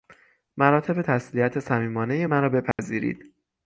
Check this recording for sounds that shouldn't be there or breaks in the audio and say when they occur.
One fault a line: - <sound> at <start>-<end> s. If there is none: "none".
- dropout at 2.7-2.8 s